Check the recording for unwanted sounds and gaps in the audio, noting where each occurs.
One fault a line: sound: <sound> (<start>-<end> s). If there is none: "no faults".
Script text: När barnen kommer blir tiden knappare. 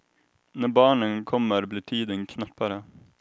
no faults